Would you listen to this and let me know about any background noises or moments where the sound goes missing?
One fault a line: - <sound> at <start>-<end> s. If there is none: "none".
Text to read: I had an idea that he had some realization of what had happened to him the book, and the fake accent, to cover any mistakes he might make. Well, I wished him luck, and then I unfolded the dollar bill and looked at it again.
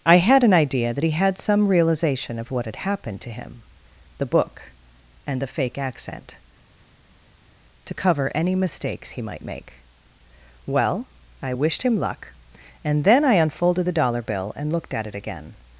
none